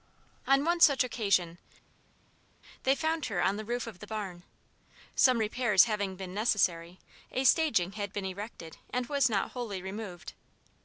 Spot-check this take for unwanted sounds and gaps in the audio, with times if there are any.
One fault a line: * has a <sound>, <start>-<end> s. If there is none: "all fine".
all fine